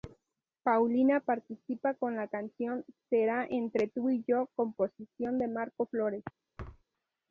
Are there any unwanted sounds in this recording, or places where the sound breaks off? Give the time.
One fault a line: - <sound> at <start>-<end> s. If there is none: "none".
- thud at 6.6-6.8 s